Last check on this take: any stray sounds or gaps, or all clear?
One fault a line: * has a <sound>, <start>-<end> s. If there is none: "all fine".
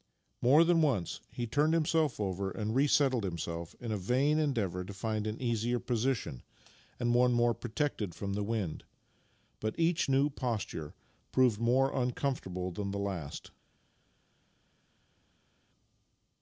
all fine